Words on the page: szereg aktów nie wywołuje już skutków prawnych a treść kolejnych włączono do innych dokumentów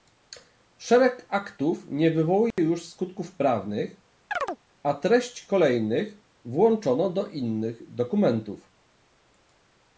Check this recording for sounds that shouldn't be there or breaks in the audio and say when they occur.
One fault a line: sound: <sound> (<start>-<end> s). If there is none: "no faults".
sound: dropout (2.5-2.6 s)
sound: chirp (4.3-4.6 s)